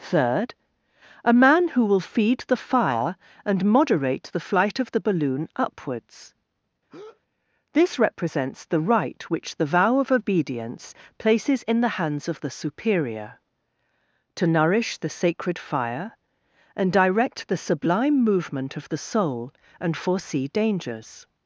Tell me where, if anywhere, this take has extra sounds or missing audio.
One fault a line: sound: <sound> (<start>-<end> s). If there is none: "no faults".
sound: breath (6.9-7.2 s)